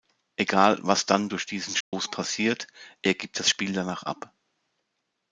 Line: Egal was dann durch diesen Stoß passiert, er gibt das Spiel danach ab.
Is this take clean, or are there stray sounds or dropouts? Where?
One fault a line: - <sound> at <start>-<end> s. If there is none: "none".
- dropout at 1.8-1.9 s